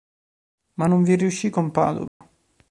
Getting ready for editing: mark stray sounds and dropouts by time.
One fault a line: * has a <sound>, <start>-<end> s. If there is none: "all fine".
* has a dropout, 2.1-2.2 s